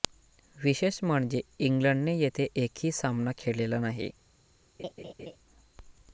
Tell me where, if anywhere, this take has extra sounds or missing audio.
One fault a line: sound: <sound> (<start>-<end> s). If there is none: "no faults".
sound: laugh (4.8-5.4 s)